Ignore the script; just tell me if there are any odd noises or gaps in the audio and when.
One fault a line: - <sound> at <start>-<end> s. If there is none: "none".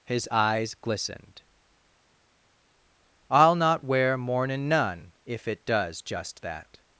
none